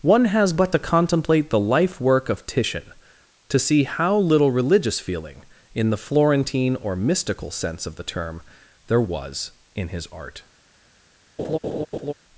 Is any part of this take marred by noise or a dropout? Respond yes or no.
yes